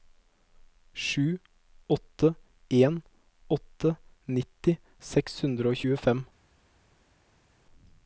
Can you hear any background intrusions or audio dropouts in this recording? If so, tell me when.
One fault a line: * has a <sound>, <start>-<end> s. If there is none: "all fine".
all fine